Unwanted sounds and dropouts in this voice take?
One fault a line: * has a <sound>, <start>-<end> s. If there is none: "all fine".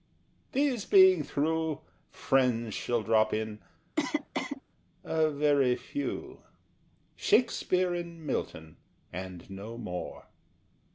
* has a cough, 4.0-4.6 s